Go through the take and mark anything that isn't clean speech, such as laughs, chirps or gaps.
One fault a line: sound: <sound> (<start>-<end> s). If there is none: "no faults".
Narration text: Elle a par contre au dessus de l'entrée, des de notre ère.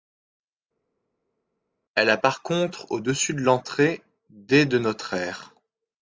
no faults